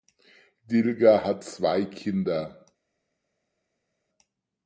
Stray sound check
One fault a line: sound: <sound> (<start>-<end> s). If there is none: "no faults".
no faults